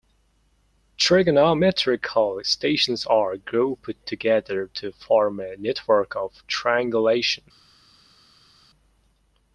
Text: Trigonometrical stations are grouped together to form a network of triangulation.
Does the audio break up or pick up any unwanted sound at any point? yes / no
no